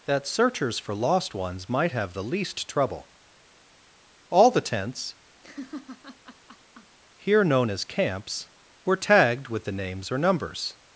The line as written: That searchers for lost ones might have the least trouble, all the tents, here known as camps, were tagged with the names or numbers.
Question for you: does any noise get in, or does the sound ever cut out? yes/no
yes